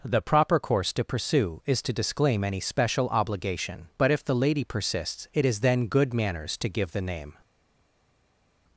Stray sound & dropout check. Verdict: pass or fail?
pass